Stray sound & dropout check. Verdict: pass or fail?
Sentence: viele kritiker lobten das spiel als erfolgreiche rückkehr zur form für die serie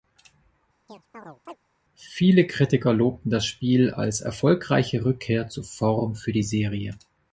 fail